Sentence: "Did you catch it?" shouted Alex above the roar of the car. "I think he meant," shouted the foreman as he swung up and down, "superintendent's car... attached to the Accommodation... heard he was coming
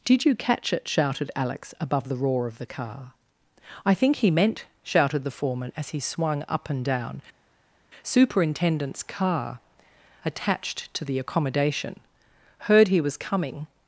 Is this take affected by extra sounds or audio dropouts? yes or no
no